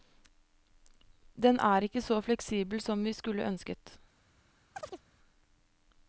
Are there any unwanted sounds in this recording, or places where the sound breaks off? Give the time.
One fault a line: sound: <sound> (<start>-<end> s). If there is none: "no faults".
sound: chirp (4.7-5.0 s)